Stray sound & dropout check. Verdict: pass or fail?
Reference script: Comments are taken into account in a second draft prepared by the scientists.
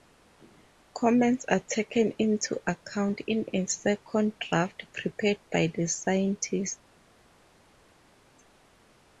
pass